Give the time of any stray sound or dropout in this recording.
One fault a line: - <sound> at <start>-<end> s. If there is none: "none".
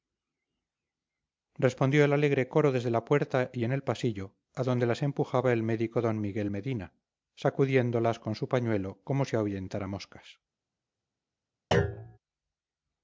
- thud at 11.7-12.2 s